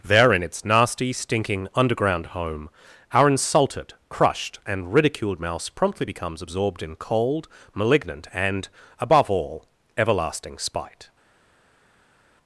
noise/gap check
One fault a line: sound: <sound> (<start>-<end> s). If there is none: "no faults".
no faults